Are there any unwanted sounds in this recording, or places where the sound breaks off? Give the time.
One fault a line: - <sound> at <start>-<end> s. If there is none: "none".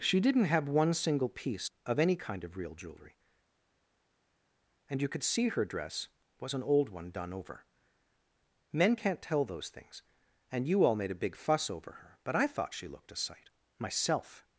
none